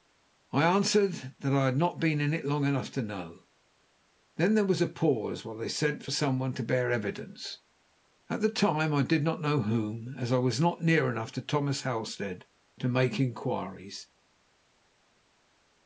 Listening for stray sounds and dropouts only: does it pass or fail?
pass